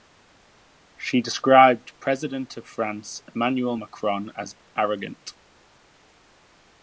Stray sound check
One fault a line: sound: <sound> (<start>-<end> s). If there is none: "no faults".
no faults